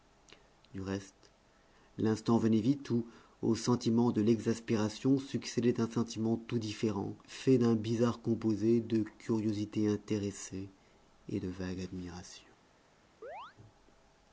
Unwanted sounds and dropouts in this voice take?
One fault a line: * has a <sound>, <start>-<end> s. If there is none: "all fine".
* has a chirp, 13.2-13.6 s